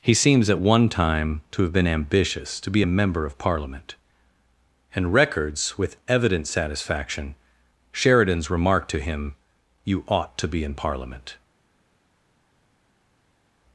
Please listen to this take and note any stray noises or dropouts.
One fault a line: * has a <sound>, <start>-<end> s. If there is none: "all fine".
all fine